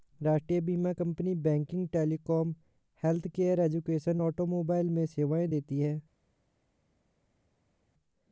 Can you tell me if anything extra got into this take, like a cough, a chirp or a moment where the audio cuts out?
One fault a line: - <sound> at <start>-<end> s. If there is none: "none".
none